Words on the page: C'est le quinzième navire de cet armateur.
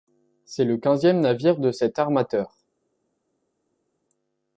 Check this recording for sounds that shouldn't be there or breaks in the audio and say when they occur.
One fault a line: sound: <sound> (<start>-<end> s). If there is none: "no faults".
no faults